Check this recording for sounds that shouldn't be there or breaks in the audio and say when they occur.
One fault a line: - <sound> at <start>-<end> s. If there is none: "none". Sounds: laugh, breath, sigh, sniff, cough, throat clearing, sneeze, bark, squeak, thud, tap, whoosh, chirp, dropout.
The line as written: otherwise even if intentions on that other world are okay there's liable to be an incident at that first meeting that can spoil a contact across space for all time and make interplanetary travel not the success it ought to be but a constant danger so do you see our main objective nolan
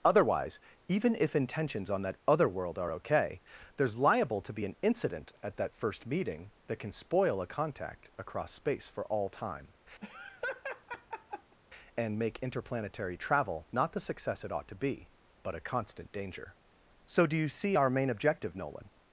- laugh at 10.0-11.6 s